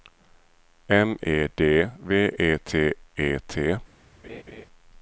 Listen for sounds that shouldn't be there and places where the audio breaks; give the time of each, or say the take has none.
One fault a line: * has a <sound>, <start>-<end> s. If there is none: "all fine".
* has a laugh, 4.2-4.7 s